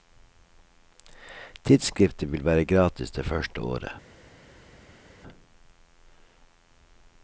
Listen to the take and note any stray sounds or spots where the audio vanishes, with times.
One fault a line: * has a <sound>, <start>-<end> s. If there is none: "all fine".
all fine